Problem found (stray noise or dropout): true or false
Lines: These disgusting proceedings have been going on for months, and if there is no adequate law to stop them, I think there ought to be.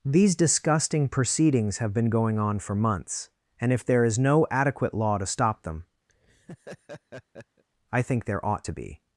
true